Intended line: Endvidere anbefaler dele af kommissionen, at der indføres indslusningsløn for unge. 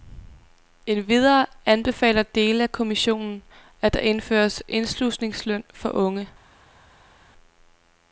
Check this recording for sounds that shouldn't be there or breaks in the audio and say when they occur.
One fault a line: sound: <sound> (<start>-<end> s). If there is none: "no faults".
no faults